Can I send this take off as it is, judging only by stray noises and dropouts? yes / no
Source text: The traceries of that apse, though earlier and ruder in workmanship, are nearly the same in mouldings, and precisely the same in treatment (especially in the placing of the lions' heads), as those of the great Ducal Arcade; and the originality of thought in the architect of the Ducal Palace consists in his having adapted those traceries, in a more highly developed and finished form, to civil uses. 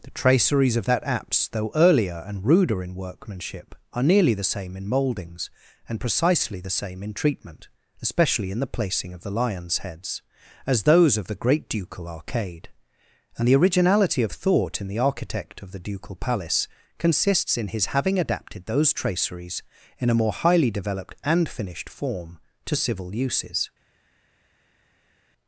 yes